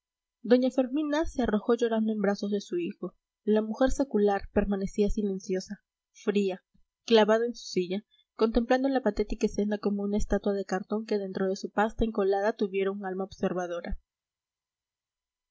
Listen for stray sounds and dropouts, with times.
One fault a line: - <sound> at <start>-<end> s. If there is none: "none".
none